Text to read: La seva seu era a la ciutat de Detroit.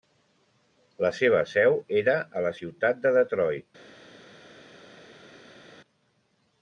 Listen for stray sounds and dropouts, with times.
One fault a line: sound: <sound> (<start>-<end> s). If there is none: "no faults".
no faults